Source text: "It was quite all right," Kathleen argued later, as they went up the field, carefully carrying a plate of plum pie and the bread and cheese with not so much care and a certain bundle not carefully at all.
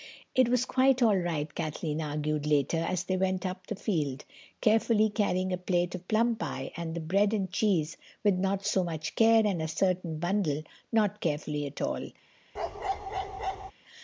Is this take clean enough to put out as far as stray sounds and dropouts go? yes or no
no